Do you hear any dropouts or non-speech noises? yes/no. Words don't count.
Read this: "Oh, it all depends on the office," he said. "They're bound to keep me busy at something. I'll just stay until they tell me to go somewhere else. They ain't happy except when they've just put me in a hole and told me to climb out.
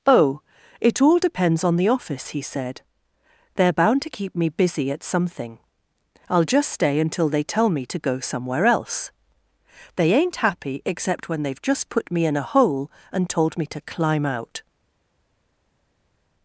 no